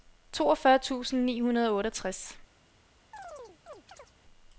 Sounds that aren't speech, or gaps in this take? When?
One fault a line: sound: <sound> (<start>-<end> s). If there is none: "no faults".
sound: chirp (3.1-4.1 s)